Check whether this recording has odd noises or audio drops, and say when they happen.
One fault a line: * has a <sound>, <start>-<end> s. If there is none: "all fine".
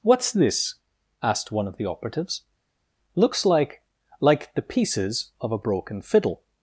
all fine